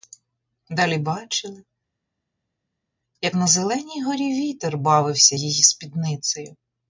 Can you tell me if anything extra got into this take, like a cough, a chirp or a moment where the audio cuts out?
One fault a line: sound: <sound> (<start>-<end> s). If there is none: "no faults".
no faults